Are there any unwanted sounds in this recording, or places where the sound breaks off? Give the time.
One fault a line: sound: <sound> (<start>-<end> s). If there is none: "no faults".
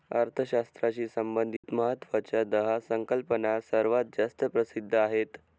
sound: dropout (1.6-1.6 s)